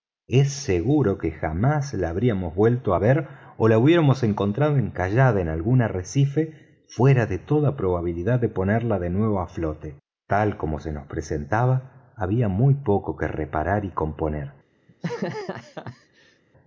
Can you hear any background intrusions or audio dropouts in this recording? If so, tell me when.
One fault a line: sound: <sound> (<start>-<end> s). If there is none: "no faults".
sound: laugh (14.9-16.4 s)